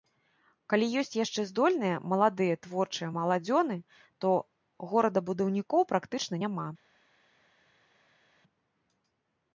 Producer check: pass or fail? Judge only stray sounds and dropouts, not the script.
pass